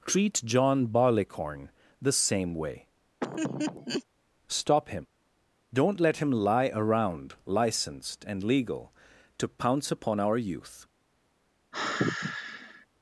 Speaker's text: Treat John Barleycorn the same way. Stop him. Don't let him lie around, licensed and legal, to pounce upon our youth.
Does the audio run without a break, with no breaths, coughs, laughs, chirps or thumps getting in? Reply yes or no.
no